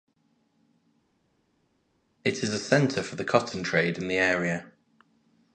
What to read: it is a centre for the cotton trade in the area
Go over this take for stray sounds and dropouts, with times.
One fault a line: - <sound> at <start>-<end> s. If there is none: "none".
none